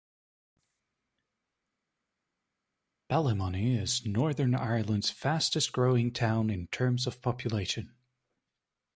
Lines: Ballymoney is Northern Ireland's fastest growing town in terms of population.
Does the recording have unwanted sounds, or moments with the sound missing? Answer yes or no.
no